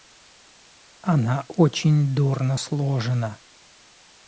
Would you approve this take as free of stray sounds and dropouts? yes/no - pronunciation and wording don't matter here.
yes